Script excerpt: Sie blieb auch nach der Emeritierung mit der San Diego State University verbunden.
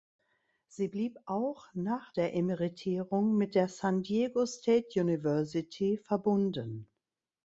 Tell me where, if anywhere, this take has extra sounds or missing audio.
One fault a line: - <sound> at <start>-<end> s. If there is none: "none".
none